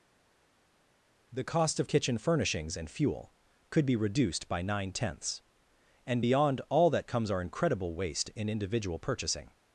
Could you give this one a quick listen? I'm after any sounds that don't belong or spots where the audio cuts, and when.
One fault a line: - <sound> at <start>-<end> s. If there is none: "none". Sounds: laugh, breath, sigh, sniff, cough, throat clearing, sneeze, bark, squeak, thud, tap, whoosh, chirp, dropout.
none